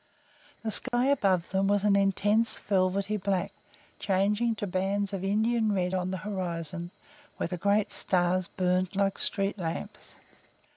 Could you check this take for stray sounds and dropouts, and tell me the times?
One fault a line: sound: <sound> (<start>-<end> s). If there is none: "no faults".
sound: dropout (0.9-0.9 s)